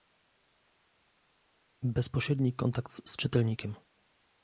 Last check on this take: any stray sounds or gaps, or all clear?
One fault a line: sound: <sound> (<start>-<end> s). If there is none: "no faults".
no faults